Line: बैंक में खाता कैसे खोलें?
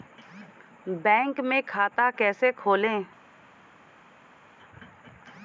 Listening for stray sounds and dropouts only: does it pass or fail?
pass